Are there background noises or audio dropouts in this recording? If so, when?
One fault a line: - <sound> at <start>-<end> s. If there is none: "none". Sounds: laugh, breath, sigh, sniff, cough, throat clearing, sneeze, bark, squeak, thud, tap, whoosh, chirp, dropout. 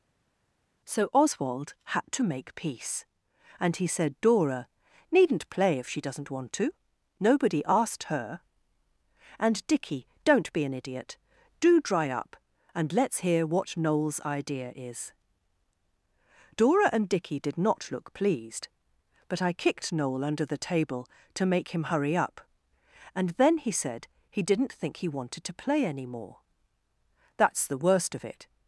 none